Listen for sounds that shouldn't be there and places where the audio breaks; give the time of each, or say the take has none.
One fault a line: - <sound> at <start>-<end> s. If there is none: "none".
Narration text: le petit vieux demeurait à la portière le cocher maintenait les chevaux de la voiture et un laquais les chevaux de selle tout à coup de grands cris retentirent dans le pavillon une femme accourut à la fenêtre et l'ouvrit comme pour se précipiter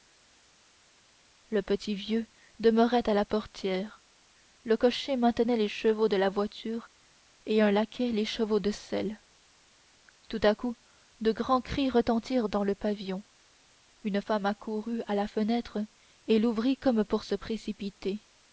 none